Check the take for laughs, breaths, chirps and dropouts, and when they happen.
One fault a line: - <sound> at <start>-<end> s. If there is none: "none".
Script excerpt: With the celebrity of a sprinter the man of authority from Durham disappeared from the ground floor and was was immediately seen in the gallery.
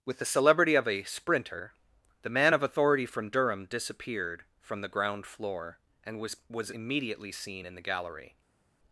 none